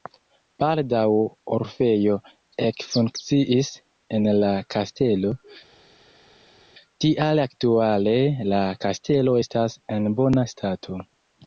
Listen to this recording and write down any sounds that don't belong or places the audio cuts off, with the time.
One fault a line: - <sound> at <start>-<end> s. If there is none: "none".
none